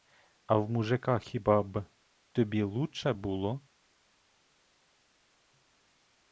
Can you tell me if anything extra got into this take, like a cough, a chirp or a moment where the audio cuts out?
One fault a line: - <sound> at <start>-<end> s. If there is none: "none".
none